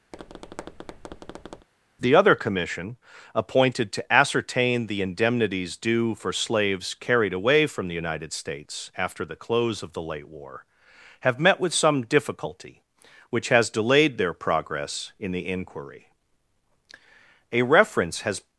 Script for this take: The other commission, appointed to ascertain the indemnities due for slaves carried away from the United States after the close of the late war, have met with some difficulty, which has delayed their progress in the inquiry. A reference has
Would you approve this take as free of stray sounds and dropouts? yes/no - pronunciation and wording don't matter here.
no